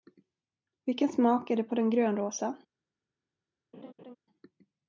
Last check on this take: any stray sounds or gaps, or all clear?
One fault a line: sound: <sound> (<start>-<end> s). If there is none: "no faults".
sound: laugh (3.7-4.2 s)